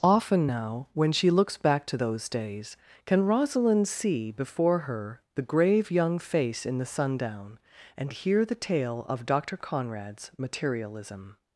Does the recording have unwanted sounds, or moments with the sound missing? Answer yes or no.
no